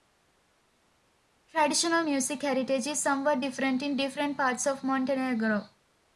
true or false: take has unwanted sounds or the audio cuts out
false